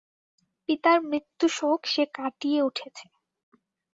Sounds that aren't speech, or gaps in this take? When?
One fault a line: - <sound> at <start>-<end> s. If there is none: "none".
none